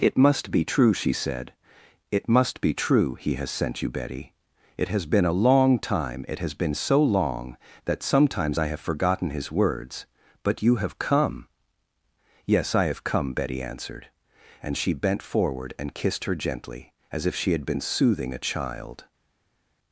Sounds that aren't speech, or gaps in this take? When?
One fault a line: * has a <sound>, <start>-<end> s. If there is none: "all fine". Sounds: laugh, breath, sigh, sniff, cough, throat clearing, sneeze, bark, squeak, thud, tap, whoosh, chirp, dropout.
all fine